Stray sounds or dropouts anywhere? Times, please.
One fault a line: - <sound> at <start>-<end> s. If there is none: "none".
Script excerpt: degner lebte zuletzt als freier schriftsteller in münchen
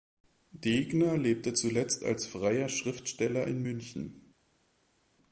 none